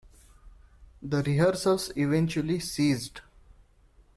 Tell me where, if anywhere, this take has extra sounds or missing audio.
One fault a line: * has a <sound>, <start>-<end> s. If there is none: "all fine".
all fine